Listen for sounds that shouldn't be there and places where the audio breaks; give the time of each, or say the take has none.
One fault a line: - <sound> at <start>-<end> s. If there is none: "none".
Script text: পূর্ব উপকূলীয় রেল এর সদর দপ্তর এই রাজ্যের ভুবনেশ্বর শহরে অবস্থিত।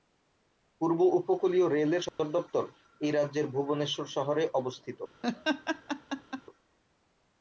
- dropout at 2.1-2.2 s
- laugh at 5.2-6.4 s